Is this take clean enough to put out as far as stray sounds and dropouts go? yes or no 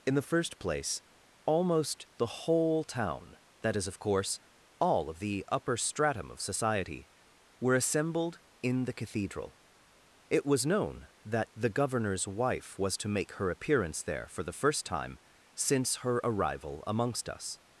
yes